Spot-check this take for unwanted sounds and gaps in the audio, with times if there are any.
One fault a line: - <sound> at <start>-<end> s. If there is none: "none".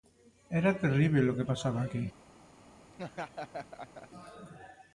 - laugh at 2.9-4.1 s